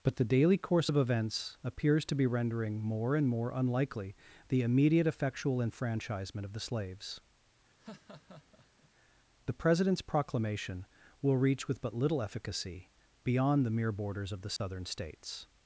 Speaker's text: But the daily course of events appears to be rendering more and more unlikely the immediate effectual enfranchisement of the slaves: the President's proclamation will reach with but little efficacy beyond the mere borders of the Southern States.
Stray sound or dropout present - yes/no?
yes